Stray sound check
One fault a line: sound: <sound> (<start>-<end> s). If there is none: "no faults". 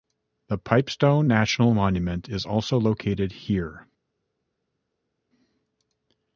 no faults